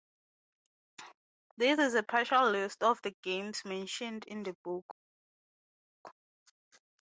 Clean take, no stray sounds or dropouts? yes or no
yes